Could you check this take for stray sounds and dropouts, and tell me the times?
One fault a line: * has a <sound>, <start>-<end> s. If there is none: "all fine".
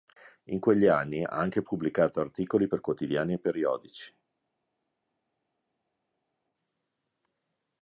all fine